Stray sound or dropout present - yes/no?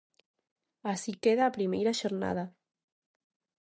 no